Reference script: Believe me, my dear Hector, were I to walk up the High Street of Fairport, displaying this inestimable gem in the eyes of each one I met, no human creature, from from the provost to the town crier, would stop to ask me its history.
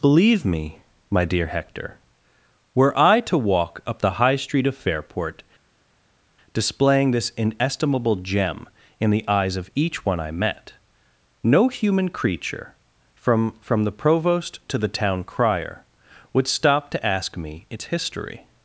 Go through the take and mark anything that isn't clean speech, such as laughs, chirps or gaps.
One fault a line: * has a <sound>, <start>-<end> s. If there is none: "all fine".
all fine